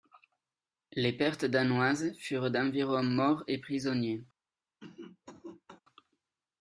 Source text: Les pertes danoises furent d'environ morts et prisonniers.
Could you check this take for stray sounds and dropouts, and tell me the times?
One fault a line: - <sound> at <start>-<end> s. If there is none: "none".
- cough at 4.8-5.8 s